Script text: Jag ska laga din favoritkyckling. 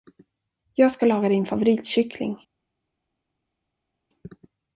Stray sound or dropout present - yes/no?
no